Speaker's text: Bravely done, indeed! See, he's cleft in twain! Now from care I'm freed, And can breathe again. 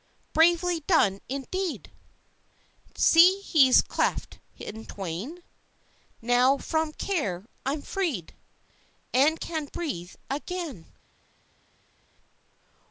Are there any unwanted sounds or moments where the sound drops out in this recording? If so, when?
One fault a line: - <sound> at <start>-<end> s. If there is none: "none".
none